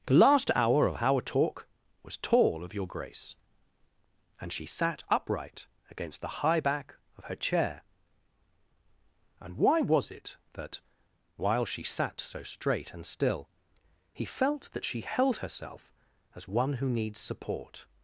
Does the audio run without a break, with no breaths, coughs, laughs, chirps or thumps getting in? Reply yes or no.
yes